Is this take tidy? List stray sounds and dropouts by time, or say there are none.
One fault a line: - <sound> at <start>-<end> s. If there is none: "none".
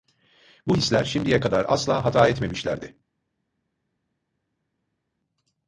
none